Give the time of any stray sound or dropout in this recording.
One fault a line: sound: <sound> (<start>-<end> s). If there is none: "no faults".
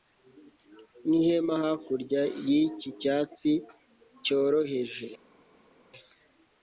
no faults